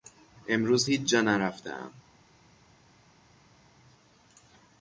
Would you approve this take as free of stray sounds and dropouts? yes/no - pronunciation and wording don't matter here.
yes